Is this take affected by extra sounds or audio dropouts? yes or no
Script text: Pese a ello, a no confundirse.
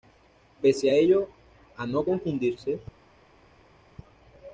no